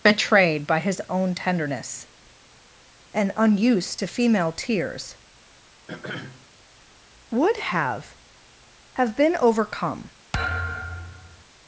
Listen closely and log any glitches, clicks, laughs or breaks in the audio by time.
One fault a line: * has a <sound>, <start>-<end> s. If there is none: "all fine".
* has a throat clearing, 5.9-6.5 s
* has a thud, 10.3-11.4 s